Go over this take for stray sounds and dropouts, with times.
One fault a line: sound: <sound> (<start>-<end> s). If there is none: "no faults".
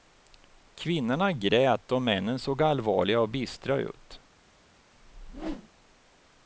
sound: whoosh (5.0-5.7 s)